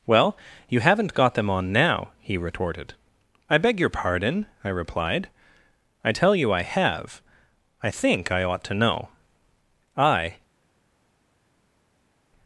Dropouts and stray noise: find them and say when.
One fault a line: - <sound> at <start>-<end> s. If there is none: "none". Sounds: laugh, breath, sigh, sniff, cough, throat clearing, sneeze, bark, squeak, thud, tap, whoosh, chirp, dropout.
none